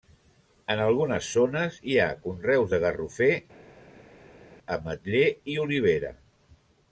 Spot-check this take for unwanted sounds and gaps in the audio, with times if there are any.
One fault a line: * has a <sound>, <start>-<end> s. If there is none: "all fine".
all fine